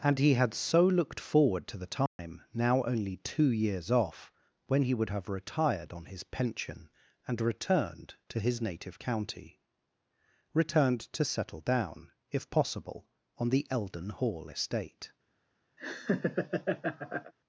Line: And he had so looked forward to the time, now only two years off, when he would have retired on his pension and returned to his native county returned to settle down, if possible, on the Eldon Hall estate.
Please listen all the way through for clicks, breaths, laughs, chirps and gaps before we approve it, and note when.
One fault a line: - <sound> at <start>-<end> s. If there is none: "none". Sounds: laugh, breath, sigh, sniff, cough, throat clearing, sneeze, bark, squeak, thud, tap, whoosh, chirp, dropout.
- dropout at 2.1-2.2 s
- laugh at 15.8-17.3 s